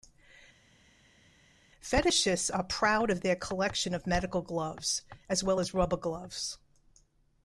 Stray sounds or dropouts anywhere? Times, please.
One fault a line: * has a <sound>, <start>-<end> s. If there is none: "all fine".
all fine